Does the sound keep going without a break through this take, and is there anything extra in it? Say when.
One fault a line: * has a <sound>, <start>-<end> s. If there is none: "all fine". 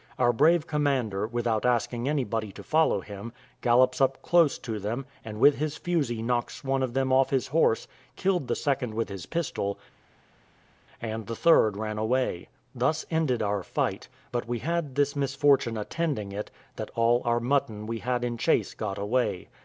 all fine